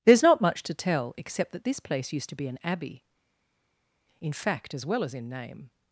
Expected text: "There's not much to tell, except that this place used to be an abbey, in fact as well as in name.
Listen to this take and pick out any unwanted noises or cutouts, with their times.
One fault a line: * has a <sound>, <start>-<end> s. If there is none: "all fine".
all fine